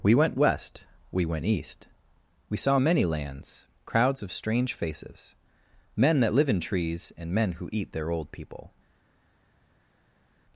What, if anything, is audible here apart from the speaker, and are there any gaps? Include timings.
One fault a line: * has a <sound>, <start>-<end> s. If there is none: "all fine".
all fine